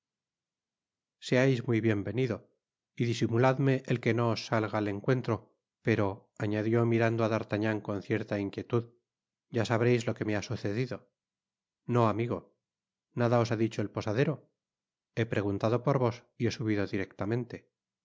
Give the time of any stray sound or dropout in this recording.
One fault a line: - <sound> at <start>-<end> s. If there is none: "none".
none